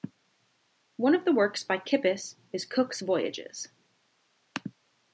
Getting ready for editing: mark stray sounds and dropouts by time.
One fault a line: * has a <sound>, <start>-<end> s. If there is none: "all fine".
all fine